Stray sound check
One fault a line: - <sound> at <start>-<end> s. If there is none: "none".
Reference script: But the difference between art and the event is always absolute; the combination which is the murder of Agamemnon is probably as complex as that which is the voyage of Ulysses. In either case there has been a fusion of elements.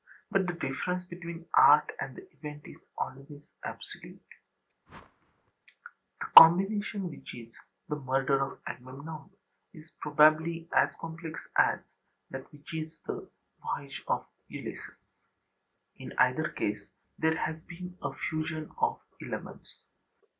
- whoosh at 4.9-5.5 s